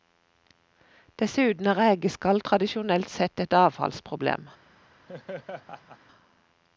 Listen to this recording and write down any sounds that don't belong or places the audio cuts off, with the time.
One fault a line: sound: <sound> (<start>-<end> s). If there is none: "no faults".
sound: laugh (5.1-6.0 s)